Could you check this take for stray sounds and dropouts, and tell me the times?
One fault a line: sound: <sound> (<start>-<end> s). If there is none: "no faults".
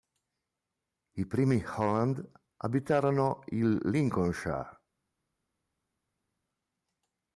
no faults